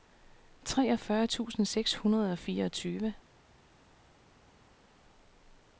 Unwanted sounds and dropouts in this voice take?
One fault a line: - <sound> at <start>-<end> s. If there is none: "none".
none